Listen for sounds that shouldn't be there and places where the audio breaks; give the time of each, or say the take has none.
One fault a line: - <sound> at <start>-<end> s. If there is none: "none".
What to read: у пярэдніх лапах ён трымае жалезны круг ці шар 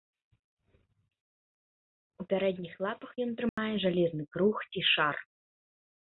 - dropout at 3.5-3.6 s